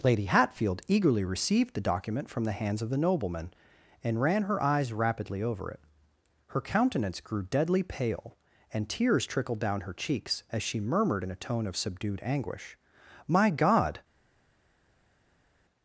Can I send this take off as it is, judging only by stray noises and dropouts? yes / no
yes